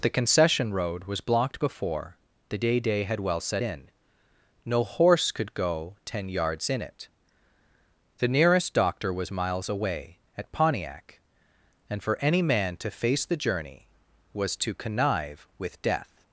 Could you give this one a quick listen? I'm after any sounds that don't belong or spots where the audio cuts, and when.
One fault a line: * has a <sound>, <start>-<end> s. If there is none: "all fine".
all fine